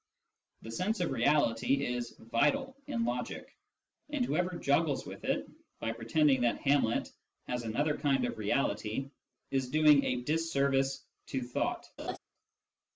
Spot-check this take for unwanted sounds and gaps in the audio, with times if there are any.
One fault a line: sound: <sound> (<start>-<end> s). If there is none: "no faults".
sound: laugh (12.0-12.2 s)